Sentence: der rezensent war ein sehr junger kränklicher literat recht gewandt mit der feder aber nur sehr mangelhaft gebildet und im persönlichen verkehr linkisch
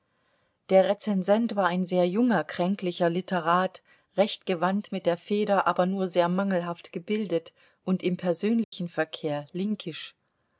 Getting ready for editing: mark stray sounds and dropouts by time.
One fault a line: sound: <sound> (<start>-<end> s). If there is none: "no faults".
sound: dropout (8.6-8.7 s)